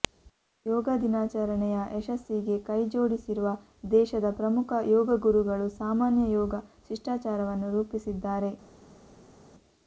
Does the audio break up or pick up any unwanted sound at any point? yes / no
no